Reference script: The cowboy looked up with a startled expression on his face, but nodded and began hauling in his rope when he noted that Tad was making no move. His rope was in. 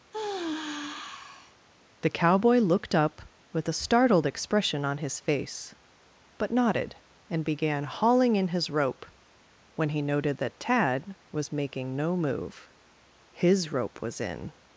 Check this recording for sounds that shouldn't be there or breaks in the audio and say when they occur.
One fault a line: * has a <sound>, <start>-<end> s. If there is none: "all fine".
* has a sigh, 0.1-1.6 s